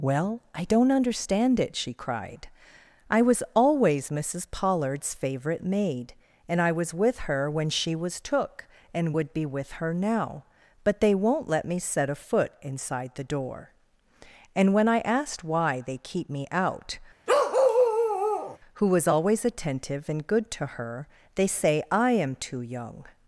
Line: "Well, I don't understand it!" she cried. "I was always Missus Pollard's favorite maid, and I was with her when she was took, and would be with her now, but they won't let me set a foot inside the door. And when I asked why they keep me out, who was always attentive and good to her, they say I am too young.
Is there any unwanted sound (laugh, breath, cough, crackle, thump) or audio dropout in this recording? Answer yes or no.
yes